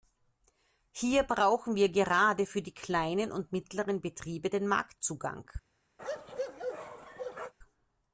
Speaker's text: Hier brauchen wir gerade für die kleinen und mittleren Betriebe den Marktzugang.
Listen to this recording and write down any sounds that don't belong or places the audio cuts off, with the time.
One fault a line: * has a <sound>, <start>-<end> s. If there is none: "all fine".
* has a bark, 6.0-7.5 s